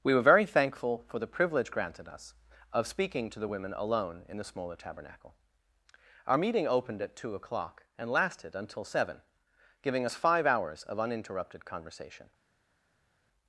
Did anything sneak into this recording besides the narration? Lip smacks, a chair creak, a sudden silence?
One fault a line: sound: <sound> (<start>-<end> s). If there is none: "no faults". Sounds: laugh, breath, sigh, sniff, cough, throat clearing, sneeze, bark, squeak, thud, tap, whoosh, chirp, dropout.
no faults